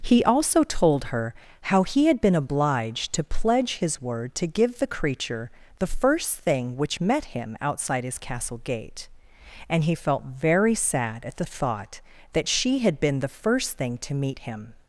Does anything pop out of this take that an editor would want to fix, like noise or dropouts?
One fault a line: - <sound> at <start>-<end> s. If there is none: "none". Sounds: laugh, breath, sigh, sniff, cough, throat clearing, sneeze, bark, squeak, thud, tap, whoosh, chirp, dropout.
none